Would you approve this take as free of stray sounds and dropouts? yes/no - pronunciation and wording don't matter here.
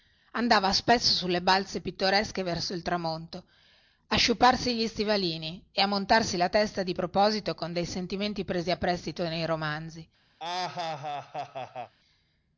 no